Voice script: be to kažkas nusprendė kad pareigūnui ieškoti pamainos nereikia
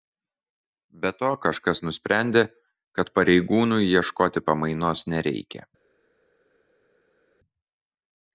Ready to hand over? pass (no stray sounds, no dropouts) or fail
pass